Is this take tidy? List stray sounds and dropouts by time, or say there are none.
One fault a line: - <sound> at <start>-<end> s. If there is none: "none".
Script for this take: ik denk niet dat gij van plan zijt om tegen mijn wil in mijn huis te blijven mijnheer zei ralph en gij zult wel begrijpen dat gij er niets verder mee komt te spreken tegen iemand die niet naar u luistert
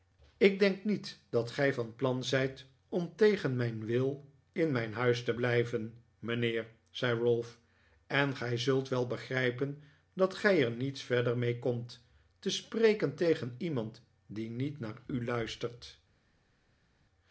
none